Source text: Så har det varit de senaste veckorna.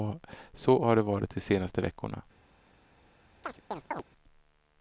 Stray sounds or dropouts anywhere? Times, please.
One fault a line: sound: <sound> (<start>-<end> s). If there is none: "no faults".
sound: chirp (3.4-4.0 s)